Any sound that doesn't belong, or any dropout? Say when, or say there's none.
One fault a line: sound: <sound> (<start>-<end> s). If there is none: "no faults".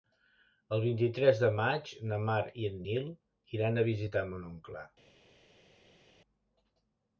no faults